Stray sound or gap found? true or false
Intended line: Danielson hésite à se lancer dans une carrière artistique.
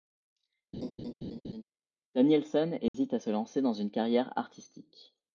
true